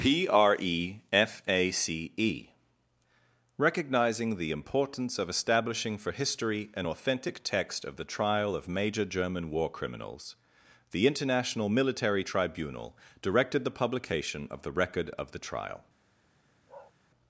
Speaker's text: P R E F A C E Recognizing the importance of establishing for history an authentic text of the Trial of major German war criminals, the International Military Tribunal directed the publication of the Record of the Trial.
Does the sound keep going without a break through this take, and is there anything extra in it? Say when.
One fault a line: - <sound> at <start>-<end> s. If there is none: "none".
- bark at 16.7-16.9 s